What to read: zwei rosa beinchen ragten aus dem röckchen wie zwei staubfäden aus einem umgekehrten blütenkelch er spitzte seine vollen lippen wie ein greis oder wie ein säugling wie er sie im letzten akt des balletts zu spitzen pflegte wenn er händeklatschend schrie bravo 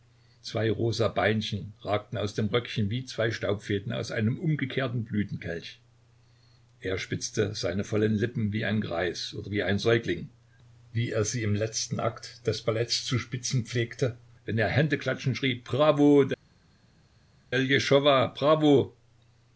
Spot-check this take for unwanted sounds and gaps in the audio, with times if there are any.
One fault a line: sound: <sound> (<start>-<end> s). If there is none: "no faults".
no faults